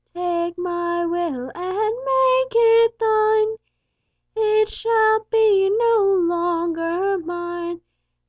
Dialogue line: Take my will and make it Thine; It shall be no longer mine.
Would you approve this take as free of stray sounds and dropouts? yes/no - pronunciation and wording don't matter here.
yes